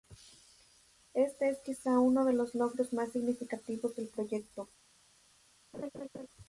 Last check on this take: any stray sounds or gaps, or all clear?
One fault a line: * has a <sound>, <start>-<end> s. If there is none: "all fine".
* has a laugh, 5.7-6.3 s